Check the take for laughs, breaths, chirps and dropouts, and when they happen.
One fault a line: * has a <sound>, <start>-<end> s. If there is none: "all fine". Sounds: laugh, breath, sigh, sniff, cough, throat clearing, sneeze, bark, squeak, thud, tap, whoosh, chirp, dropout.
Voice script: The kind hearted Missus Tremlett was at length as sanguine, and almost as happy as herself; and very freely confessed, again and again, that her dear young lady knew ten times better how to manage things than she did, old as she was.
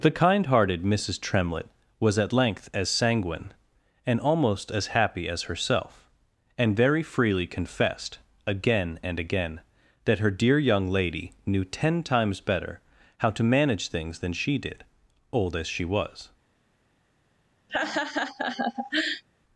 * has a laugh, 17.7-19.2 s